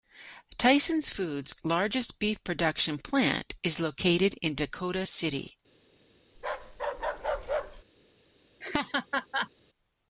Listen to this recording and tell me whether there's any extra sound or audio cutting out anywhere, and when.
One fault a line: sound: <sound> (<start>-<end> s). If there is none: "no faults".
sound: bark (6.3-7.8 s)
sound: laugh (8.6-9.5 s)